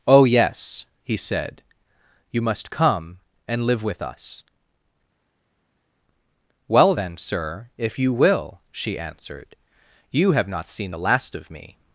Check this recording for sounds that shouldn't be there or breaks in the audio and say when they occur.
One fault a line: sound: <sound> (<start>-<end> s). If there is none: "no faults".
no faults